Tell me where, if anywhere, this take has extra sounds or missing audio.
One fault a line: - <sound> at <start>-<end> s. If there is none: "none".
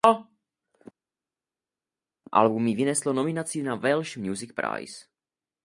none